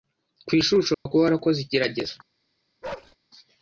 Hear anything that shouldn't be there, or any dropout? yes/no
yes